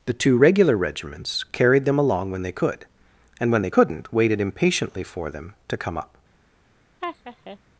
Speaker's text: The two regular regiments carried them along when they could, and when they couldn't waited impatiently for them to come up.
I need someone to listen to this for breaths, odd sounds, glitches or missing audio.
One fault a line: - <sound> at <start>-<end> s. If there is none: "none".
- laugh at 7.0-7.6 s